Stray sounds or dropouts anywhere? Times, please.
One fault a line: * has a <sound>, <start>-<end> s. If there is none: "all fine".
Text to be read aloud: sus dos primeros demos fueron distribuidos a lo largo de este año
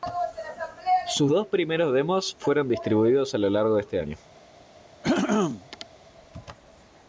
* has a throat clearing, 5.0-5.9 s